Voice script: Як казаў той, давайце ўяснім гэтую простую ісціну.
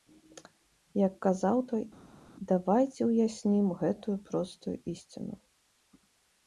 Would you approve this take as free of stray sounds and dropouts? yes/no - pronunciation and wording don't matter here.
yes